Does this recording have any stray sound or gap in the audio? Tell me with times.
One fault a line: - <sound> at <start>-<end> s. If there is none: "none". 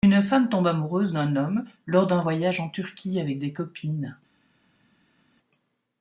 none